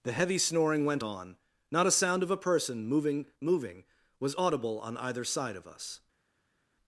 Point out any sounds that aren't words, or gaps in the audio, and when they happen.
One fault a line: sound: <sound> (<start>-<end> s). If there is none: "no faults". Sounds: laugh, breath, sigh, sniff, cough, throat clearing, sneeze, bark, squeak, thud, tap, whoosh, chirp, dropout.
no faults